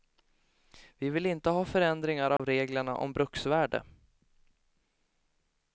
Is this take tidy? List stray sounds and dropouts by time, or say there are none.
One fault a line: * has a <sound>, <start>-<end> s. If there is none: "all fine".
* has a dropout, 2.4-2.4 s